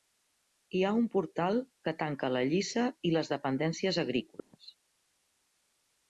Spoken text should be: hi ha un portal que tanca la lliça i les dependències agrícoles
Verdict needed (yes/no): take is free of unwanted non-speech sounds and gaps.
no